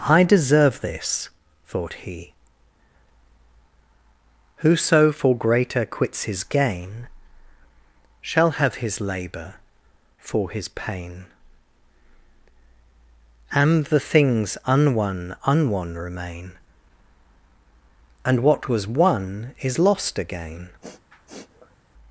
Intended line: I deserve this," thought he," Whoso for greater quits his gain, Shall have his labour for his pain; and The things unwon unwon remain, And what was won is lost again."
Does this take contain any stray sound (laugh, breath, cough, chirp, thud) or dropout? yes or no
yes